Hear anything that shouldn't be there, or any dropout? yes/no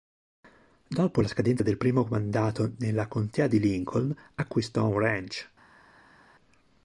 no